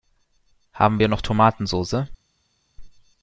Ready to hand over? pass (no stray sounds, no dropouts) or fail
pass